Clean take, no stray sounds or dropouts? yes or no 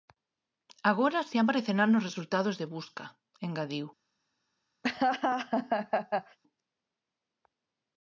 no